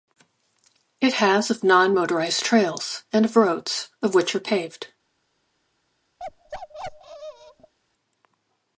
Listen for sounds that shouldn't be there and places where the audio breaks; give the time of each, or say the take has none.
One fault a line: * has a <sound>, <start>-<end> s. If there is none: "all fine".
* has a bark, 6.2-7.7 s